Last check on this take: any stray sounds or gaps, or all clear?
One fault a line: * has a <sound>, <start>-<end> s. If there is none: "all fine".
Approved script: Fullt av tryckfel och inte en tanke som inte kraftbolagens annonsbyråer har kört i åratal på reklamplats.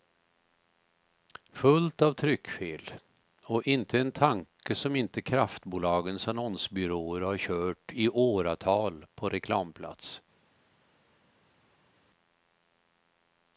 all fine